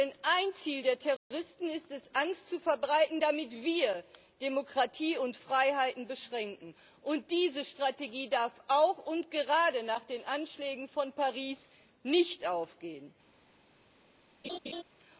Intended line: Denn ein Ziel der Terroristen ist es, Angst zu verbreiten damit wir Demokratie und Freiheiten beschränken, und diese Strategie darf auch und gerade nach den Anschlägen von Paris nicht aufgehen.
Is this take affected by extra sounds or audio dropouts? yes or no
yes